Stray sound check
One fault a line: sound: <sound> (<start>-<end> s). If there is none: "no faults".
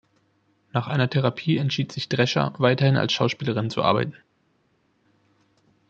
no faults